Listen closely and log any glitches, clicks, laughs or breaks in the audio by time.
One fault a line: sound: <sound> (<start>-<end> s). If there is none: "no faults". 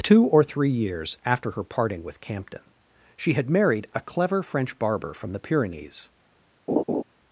sound: laugh (6.7-7.0 s)